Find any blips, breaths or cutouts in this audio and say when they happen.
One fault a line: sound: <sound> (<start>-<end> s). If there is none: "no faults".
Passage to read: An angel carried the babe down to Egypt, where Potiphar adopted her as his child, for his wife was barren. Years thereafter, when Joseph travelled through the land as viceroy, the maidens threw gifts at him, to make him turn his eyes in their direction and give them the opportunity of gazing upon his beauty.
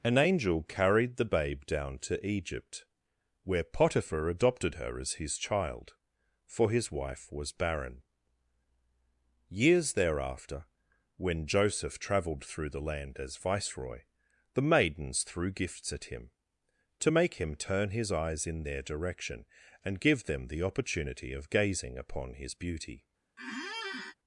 sound: squeak (23.4-24.1 s)